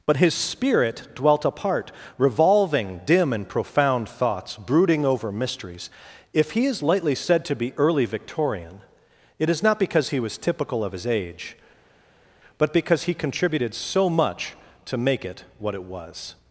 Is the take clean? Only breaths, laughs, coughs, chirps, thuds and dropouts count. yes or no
yes